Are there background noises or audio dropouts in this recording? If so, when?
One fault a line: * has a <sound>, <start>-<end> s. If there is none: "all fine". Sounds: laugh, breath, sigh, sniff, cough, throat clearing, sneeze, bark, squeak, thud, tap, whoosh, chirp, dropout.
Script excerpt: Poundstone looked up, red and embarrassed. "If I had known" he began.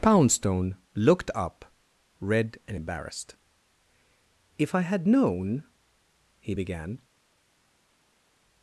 all fine